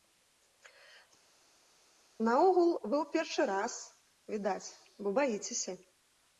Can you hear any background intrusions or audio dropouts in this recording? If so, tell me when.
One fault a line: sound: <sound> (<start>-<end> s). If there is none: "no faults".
no faults